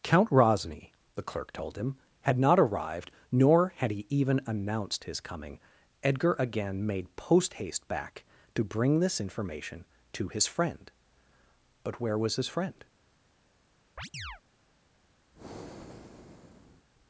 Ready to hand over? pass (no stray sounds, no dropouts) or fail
fail